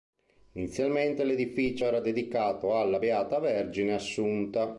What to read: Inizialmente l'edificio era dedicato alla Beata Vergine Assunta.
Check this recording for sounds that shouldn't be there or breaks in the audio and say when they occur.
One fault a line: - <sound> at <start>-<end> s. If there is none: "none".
none